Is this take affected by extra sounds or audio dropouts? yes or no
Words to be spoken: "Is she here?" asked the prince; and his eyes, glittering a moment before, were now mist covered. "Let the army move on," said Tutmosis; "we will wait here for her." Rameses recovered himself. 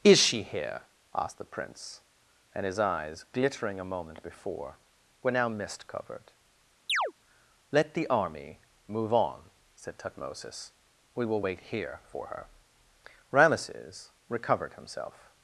yes